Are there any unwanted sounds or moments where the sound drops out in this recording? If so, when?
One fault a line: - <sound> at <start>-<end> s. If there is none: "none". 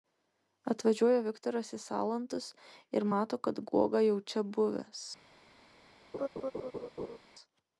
- laugh at 6.1-7.2 s